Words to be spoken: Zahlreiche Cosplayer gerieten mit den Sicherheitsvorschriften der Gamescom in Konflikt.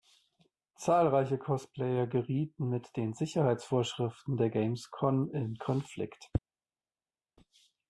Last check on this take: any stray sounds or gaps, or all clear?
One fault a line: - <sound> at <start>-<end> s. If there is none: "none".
none